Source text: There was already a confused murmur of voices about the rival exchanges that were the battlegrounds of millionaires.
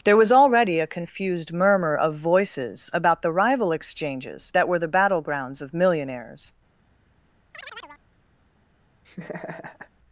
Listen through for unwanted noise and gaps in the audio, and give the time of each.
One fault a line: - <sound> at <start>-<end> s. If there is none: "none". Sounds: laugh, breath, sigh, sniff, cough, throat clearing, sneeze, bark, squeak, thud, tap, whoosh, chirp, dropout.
- chirp at 7.5-8.0 s
- laugh at 9.0-9.9 s